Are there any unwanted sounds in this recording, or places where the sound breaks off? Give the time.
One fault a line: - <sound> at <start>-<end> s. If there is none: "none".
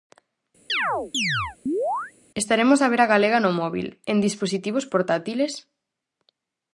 - chirp at 0.7-2.1 s